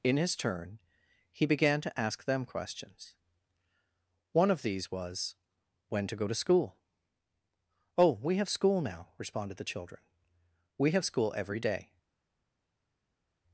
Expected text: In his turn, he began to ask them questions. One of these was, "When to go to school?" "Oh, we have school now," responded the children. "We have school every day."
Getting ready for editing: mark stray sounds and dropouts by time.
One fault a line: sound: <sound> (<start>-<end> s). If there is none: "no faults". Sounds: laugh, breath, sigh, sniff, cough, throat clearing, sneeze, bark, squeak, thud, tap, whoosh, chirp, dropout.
no faults